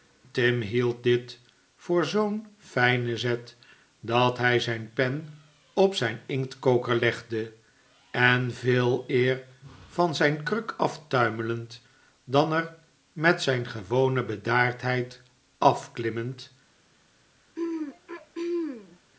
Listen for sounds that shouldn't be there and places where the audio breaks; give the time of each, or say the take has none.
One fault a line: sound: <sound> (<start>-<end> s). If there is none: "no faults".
sound: throat clearing (17.6-19.0 s)